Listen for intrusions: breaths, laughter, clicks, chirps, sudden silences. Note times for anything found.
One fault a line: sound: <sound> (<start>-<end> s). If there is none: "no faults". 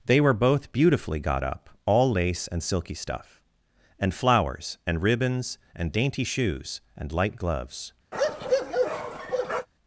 sound: bark (8.1-9.7 s)